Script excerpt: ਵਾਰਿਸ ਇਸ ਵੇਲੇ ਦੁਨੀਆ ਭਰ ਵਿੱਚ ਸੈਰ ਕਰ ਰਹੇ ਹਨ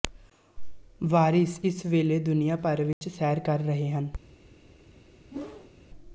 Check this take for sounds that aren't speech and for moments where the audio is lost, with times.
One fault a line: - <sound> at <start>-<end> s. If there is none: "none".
- dropout at 2.9-3.0 s
- whoosh at 5.3-5.7 s